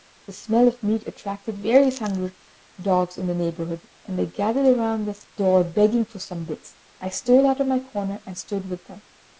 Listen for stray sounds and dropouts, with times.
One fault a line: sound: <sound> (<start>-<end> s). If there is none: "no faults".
no faults